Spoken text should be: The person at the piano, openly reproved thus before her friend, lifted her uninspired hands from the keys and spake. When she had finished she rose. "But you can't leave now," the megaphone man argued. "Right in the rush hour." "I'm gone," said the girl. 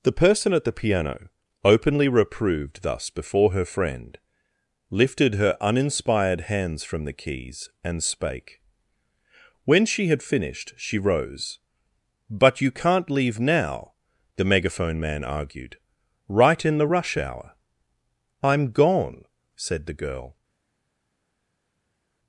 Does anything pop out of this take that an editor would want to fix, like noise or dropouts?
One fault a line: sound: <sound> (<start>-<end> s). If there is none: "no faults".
no faults